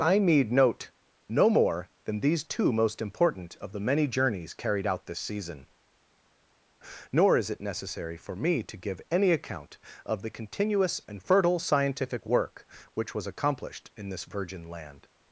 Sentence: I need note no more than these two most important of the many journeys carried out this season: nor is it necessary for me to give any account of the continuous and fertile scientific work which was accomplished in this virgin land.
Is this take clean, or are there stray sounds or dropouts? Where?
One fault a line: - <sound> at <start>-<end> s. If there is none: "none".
none